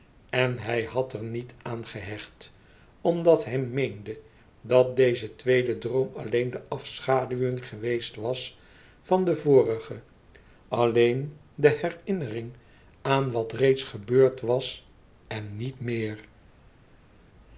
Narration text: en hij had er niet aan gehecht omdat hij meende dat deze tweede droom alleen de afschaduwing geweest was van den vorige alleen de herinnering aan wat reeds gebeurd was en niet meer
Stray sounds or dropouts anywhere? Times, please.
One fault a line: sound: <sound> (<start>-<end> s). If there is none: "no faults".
no faults